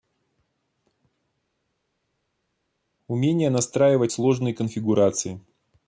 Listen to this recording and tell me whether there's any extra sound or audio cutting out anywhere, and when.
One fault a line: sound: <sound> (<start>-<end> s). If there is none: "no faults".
no faults